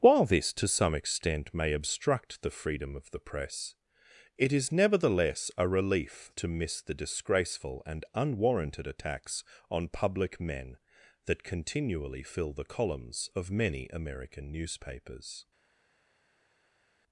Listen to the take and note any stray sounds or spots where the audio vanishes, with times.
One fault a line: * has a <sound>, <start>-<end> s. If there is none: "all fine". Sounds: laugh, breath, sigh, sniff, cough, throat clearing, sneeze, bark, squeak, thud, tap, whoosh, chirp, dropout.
all fine